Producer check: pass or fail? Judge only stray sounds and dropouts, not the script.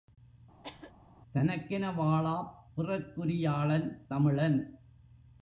fail